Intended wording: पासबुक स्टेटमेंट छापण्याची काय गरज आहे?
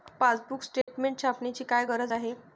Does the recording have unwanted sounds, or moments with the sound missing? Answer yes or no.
yes